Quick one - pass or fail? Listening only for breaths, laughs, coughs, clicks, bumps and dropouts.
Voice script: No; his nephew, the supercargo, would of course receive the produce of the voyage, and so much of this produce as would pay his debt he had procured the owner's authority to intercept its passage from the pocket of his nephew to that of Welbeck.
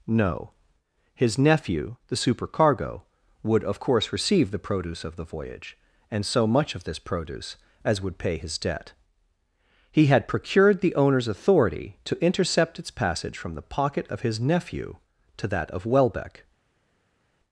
pass